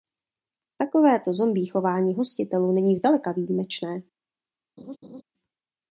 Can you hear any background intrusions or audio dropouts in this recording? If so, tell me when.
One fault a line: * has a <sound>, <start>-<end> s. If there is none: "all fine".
* has a laugh, 4.8-5.2 s